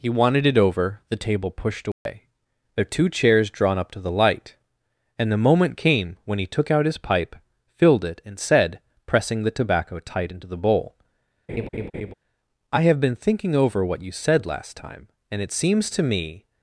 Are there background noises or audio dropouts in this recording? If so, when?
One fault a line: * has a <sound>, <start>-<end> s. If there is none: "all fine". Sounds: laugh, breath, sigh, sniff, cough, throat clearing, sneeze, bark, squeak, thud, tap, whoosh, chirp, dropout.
* has a dropout, 1.9-2.1 s
* has a laugh, 11.5-12.1 s